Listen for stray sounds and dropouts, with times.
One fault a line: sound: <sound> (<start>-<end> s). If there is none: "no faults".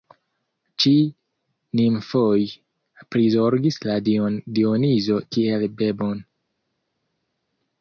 no faults